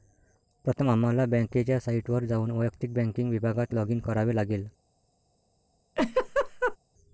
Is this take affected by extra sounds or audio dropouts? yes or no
yes